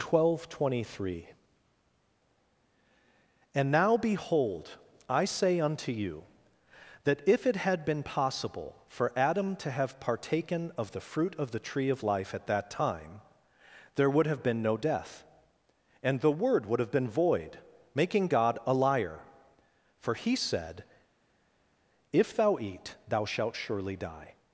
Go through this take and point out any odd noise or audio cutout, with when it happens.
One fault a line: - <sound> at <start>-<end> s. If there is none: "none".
none